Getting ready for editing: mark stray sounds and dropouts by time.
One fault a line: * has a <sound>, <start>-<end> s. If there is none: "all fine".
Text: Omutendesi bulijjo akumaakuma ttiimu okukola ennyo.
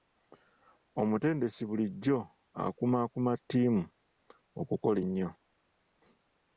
all fine